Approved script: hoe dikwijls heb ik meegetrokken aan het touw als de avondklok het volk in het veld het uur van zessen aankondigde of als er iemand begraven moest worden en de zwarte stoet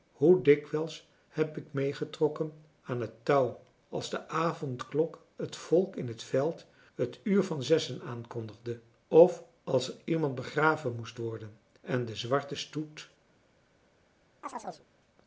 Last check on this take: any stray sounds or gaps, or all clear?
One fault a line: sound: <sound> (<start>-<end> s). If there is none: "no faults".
sound: chirp (14.4-14.9 s)